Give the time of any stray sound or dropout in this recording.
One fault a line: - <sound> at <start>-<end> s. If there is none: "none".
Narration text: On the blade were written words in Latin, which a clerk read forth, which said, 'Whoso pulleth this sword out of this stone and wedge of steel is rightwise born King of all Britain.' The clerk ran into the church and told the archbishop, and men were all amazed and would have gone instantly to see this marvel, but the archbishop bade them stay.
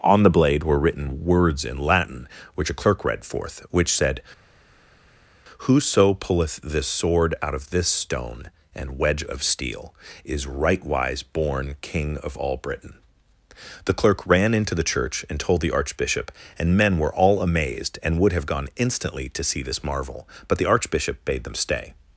none